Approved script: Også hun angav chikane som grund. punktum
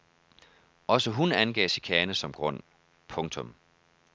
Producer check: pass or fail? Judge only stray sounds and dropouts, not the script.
pass